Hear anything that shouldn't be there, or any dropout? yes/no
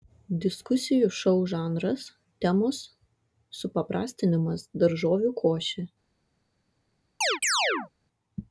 yes